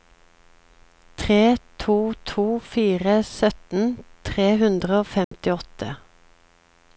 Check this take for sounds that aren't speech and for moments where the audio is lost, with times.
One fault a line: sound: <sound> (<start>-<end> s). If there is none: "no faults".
sound: dropout (5.2-5.3 s)